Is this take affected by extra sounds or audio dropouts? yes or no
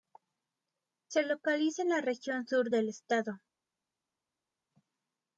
no